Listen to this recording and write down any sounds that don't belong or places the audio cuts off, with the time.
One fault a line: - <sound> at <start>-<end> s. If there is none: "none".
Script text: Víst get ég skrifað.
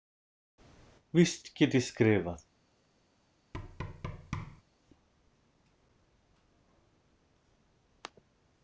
- thud at 3.5-4.6 s